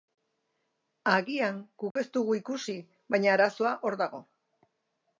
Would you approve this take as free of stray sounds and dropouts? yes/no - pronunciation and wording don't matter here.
no